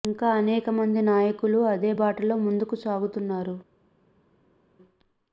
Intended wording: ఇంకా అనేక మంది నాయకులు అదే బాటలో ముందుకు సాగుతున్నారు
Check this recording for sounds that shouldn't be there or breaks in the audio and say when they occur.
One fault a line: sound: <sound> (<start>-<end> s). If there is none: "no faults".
no faults